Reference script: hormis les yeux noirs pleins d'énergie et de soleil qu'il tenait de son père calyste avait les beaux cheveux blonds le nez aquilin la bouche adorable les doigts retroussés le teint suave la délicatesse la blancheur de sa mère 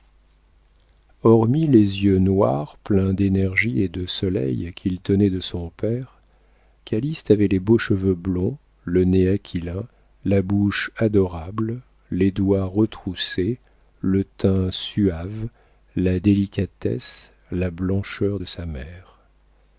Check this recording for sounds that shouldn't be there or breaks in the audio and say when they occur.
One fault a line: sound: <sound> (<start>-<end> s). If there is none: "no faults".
no faults